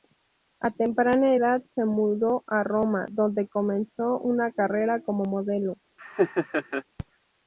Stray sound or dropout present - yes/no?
yes